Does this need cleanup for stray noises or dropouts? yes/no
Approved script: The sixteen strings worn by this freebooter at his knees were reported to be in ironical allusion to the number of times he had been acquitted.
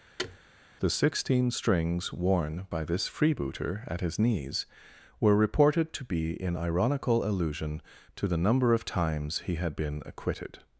yes